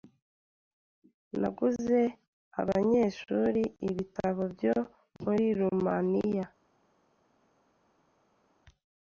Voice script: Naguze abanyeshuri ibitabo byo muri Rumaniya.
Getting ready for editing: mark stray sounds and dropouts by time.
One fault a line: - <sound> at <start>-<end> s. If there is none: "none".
none